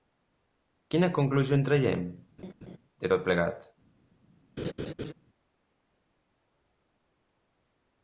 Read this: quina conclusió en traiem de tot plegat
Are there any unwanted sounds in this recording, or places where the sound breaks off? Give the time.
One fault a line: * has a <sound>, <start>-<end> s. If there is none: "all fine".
* has a laugh, 2.4-2.8 s
* has a laugh, 4.6-5.1 s